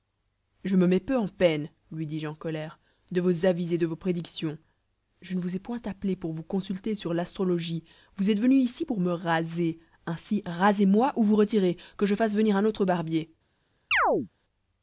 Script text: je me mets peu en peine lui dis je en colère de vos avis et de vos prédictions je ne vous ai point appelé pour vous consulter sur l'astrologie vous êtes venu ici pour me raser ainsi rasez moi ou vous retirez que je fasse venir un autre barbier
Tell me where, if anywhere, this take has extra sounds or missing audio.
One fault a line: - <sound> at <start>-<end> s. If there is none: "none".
- chirp at 13.9-14.3 s